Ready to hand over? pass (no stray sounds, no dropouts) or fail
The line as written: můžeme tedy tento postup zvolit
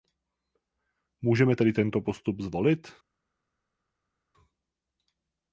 pass